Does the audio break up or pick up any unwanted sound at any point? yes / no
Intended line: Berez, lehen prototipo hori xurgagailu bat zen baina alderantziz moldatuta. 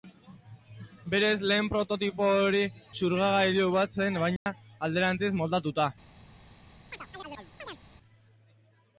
yes